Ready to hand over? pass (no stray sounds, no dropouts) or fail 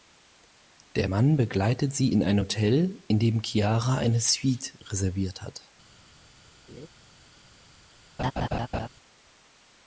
fail